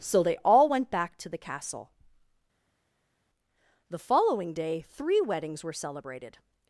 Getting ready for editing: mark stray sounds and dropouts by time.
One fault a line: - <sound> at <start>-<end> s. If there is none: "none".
none